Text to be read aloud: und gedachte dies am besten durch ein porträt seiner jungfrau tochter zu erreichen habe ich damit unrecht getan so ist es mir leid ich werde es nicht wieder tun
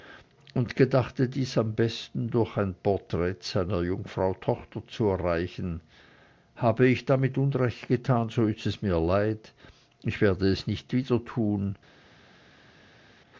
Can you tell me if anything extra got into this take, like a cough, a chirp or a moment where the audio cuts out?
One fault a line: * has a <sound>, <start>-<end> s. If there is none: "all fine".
all fine